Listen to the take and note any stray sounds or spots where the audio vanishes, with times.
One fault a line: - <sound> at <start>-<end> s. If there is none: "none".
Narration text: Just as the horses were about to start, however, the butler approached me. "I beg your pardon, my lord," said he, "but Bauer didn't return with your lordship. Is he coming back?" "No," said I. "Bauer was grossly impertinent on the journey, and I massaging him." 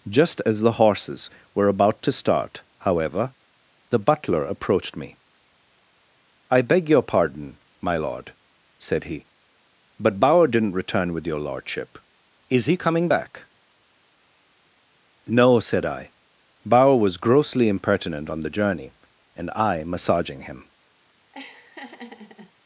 - laugh at 21.3-22.5 s